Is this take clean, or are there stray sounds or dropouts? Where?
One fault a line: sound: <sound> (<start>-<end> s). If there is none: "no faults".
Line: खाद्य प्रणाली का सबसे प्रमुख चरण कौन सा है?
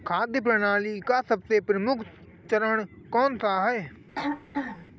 sound: throat clearing (4.2-4.9 s)